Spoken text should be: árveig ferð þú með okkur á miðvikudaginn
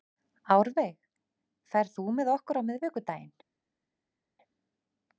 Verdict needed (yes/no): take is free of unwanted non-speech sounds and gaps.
yes